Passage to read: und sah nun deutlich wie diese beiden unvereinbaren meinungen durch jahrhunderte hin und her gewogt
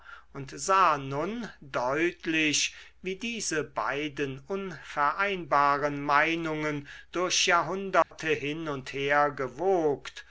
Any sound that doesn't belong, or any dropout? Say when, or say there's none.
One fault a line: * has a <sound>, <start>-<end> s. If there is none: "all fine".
* has a dropout, 8.0-8.1 s